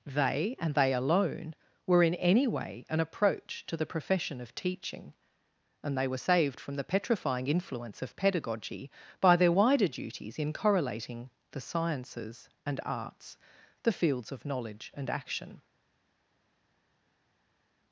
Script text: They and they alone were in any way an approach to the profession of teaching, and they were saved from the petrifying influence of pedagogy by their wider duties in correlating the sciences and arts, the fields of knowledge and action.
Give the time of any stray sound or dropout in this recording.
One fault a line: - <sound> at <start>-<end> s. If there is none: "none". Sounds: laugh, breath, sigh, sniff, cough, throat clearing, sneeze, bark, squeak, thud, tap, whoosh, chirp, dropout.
none